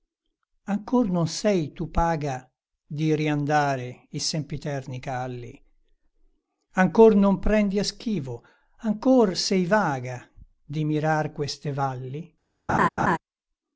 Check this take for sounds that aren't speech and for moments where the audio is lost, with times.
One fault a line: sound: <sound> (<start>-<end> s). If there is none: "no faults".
sound: laugh (12.7-13.2 s)